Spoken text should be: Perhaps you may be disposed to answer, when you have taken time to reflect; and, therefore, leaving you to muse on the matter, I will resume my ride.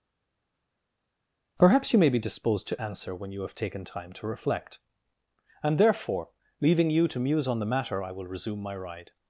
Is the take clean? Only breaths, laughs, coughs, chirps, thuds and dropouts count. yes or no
yes